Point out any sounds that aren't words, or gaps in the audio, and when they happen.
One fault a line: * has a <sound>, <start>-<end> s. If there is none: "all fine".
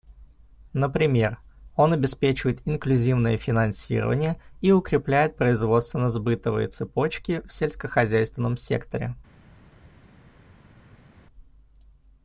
all fine